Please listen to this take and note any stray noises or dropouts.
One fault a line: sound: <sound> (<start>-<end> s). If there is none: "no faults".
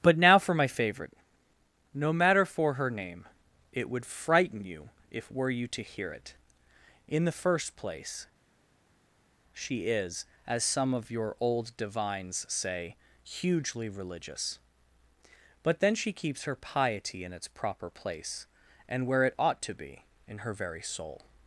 no faults